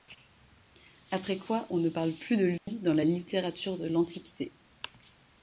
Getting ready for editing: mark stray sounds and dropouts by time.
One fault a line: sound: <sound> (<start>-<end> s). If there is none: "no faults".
sound: dropout (2.6-2.7 s)